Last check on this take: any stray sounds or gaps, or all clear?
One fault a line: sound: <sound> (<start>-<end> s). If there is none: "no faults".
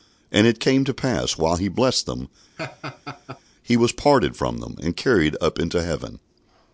sound: laugh (2.6-3.4 s)